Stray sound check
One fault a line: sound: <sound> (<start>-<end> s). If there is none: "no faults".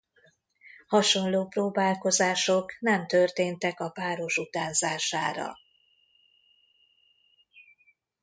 no faults